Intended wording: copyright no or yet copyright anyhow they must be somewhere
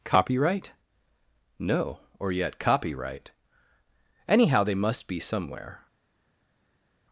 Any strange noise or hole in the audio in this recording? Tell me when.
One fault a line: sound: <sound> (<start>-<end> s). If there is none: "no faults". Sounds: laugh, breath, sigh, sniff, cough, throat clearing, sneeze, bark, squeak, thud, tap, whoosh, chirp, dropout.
no faults